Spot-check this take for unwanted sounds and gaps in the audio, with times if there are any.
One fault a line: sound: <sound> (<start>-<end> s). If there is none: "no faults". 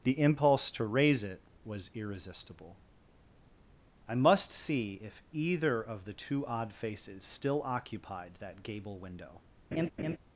sound: laugh (9.7-10.2 s)